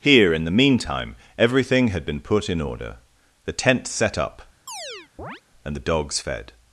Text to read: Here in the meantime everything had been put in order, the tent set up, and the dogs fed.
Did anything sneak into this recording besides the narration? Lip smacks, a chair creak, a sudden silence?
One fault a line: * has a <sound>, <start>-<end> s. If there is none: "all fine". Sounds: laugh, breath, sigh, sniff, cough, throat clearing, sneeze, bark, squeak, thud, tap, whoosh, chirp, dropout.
* has a chirp, 4.7-5.4 s